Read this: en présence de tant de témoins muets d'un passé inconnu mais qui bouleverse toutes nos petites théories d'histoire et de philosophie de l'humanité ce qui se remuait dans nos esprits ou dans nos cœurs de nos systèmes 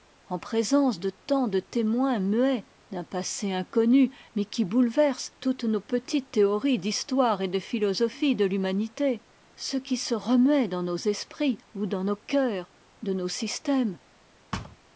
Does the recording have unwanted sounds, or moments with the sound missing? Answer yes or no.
yes